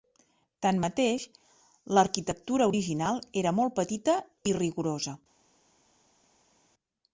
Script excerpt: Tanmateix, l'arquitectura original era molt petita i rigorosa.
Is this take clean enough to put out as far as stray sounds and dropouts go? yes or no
yes